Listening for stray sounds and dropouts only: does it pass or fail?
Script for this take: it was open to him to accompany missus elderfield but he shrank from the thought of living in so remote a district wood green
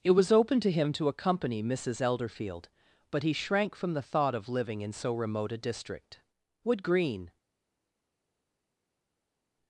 pass